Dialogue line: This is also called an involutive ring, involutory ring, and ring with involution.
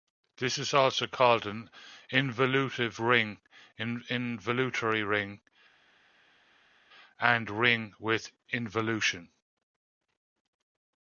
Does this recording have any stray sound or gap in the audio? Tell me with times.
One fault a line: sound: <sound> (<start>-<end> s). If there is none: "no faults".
no faults